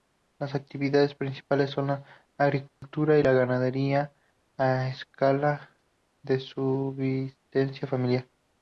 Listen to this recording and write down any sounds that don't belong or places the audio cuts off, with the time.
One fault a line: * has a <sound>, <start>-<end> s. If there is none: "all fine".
* has a dropout, 2.7-2.8 s